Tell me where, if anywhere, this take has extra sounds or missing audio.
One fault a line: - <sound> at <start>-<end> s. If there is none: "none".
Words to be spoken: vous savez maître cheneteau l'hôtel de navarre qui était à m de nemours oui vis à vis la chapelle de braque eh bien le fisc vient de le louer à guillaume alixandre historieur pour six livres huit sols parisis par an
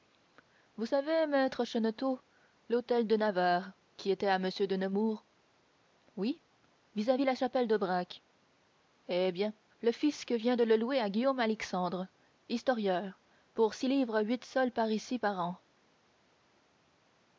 none